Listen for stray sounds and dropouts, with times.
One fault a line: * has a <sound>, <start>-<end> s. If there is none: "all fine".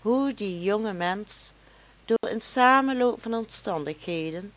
* has a dropout, 2.2-2.2 s